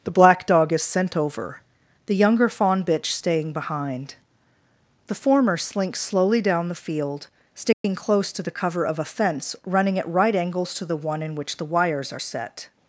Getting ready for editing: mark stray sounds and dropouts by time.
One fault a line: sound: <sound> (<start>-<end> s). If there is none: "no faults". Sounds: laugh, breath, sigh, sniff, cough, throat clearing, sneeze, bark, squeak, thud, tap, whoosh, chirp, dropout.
sound: dropout (7.7-7.8 s)